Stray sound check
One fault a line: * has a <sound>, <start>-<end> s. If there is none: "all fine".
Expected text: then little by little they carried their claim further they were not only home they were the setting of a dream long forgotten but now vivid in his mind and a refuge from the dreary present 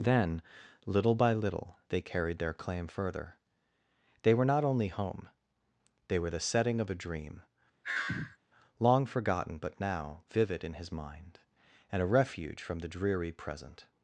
* has a sigh, 7.8-8.4 s